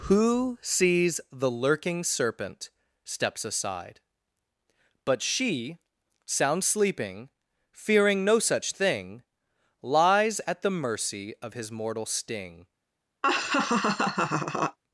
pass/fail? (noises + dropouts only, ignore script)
fail